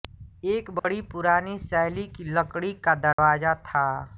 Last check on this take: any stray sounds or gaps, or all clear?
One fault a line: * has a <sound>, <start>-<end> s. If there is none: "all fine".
* has a dropout, 0.8-0.8 s
* has a dropout, 3.1-3.2 s